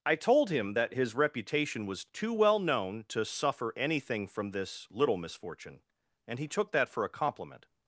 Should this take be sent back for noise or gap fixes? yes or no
no